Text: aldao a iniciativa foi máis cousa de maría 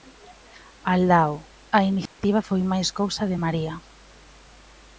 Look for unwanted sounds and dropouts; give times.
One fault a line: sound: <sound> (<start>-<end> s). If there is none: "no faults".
sound: dropout (2.1-2.2 s)